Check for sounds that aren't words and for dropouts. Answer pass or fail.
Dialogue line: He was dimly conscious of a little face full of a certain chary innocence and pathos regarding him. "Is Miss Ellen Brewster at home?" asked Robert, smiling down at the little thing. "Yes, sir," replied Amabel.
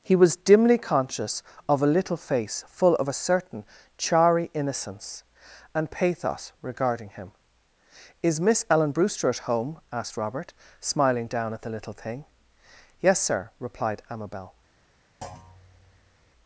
fail